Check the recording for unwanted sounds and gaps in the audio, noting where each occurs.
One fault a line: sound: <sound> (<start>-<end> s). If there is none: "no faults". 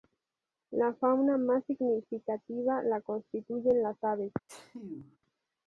sound: sneeze (4.5-5.2 s)